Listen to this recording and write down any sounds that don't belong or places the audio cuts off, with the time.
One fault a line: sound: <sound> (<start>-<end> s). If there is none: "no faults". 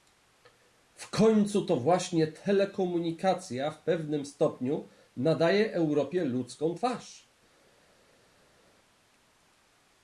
no faults